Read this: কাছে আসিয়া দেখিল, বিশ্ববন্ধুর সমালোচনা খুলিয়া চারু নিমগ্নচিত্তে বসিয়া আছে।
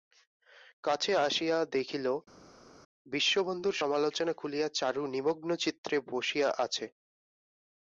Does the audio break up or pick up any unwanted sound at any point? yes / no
no